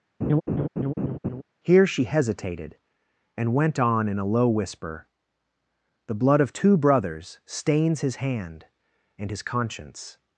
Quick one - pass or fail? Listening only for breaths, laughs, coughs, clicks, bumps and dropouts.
fail